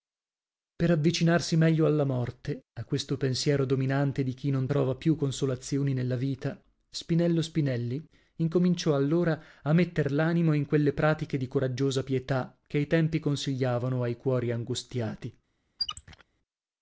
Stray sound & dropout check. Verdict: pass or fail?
fail